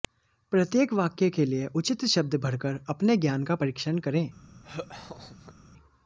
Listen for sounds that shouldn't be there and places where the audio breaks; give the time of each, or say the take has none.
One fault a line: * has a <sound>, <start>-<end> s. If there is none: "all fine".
* has a laugh, 4.6-5.5 s